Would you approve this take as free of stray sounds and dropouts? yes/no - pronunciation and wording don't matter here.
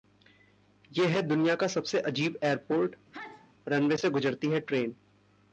no